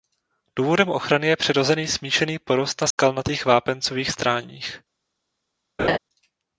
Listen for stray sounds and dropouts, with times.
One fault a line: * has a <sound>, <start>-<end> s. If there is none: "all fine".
* has a dropout, 2.9-3.0 s
* has a laugh, 5.8-6.0 s